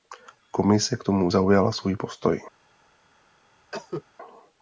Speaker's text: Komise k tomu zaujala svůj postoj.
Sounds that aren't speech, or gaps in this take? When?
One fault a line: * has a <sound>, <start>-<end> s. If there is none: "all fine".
* has a cough, 3.7-4.0 s